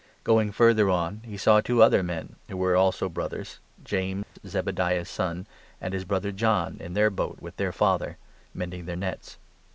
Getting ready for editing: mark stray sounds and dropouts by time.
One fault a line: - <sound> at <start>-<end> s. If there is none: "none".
- dropout at 4.2-4.4 s